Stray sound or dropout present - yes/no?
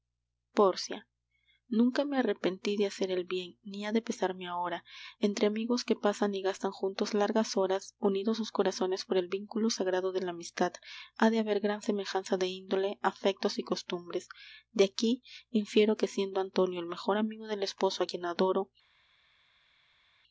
no